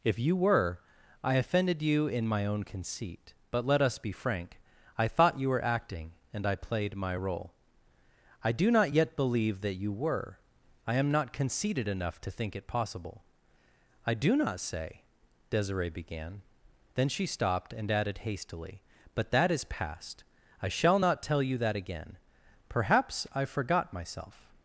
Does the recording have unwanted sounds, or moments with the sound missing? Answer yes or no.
no